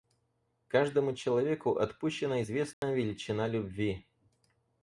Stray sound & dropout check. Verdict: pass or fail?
fail